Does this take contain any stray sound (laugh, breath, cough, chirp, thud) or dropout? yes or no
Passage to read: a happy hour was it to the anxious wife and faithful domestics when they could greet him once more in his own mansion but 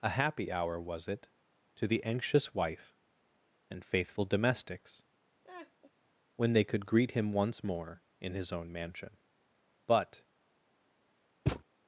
yes